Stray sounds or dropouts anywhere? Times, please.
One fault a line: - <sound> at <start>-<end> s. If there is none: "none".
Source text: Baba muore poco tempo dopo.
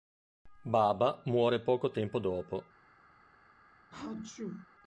- sneeze at 3.9-4.7 s